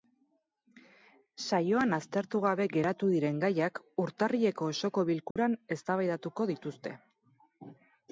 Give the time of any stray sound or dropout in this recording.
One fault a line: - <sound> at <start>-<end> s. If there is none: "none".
- dropout at 5.3-5.4 s